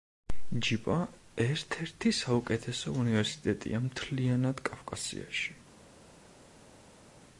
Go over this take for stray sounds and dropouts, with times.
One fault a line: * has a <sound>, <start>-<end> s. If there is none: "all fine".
all fine